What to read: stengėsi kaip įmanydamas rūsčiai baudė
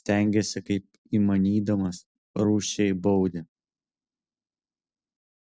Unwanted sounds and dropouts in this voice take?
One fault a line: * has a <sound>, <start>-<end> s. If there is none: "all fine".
all fine